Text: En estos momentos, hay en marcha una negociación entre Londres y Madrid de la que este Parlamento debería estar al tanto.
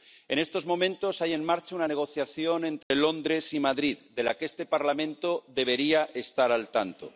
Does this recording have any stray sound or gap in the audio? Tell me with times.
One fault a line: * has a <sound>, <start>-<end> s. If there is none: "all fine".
* has a dropout, 2.8-2.9 s